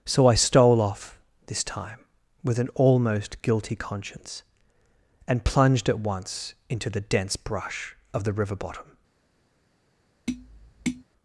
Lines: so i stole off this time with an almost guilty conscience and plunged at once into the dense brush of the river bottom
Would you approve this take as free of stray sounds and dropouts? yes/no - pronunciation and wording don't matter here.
no